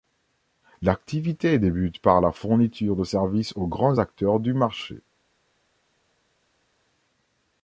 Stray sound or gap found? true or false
false